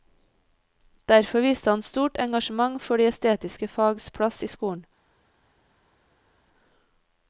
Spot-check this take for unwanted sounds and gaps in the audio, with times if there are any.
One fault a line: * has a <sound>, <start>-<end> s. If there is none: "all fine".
all fine